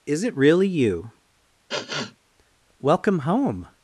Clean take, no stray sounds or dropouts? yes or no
no